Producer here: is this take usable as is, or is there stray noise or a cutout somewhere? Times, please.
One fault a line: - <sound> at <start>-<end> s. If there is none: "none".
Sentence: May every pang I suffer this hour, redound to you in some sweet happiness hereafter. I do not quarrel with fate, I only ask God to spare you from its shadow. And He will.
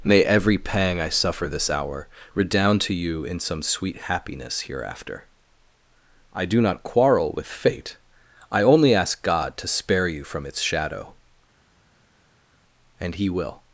none